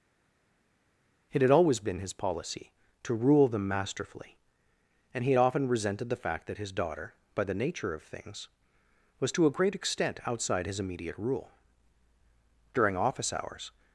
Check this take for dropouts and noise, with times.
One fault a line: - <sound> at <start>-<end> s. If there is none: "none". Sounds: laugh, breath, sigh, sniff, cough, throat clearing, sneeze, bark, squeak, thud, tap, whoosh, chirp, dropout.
none